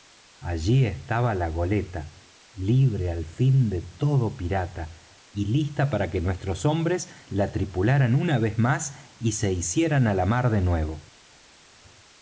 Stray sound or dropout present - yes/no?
no